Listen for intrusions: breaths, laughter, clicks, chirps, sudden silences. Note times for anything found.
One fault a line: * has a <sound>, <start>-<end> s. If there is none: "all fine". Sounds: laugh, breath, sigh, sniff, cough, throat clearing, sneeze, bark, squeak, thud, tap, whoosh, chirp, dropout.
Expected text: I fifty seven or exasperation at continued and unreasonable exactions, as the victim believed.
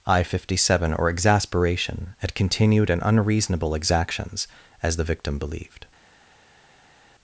all fine